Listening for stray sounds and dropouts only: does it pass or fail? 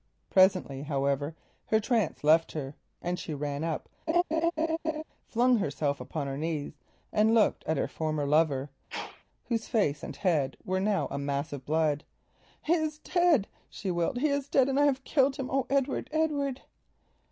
fail